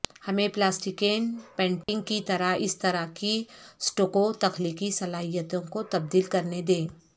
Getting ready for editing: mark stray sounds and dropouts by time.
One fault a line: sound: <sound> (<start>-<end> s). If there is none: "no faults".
sound: dropout (1.8-1.9 s)